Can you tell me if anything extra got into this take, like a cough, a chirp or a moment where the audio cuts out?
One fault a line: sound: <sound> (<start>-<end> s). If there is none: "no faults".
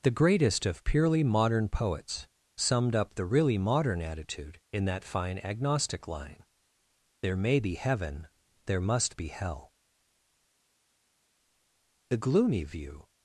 no faults